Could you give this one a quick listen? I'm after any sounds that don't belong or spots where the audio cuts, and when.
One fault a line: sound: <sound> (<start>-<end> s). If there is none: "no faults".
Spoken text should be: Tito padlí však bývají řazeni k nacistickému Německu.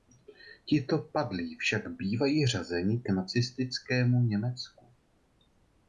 no faults